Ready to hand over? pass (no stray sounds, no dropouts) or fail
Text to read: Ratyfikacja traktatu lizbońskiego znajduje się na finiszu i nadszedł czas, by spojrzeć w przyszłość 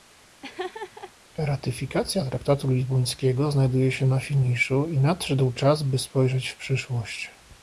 fail